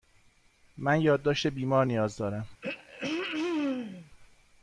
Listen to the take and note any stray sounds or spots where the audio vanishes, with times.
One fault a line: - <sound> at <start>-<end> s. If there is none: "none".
- throat clearing at 2.6-4.1 s